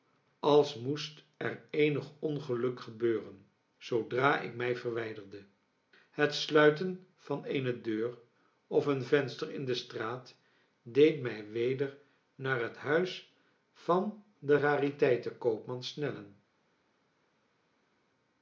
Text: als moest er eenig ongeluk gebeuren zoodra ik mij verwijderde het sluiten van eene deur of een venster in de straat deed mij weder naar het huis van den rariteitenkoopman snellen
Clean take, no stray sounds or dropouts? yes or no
yes